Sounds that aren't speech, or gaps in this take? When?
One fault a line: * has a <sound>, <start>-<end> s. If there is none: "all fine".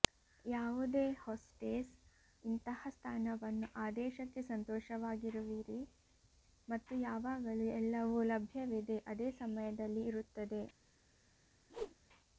* has a whoosh, 11.7-12.0 s